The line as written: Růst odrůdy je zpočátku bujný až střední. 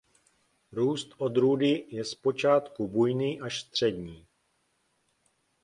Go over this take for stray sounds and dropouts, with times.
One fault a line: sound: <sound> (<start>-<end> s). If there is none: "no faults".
no faults